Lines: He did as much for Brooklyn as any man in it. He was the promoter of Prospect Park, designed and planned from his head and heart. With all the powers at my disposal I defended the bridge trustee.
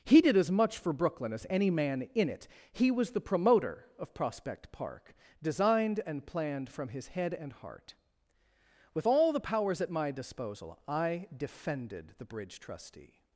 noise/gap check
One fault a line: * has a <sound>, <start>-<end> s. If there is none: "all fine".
all fine